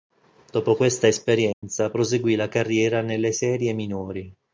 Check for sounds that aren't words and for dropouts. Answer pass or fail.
fail